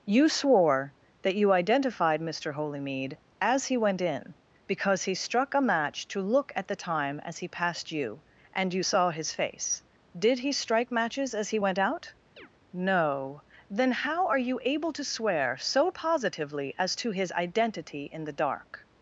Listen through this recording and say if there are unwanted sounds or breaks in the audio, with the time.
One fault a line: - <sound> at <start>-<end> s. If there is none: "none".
- chirp at 12.4-12.5 s